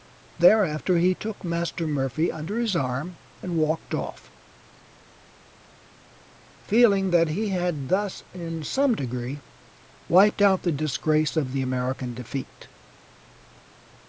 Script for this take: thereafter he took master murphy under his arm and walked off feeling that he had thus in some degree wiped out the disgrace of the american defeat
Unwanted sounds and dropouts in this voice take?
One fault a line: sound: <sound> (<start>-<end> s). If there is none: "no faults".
no faults